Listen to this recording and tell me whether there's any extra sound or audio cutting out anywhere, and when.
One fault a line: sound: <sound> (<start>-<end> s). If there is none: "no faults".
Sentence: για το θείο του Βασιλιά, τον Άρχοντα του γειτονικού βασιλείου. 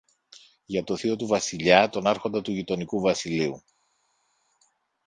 no faults